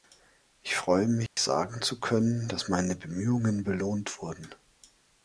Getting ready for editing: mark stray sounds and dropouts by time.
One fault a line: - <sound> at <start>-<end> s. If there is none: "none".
- dropout at 1.3-1.4 s